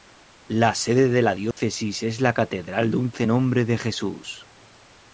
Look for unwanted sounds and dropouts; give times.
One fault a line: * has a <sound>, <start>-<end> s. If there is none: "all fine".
* has a dropout, 1.5-1.6 s